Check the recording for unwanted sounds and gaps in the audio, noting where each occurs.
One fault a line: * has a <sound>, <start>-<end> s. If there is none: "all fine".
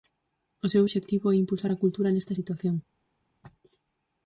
all fine